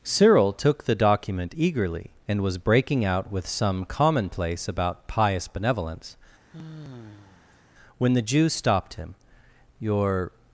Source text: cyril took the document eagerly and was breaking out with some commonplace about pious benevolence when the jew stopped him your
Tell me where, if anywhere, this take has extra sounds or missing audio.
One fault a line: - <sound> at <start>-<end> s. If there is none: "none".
- sigh at 6.5-7.6 s